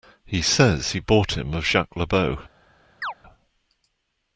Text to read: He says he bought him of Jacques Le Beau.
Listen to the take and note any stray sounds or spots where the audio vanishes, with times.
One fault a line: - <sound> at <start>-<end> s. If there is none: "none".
- chirp at 3.0-3.1 s